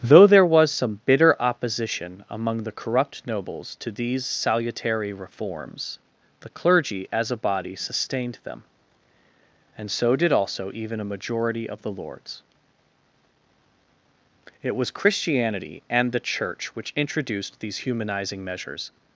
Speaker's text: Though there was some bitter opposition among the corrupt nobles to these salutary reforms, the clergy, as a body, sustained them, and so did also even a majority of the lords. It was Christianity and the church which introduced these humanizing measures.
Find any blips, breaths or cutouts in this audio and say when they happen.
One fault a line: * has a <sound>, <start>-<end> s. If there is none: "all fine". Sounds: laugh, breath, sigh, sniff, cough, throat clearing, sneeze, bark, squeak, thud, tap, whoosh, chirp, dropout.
all fine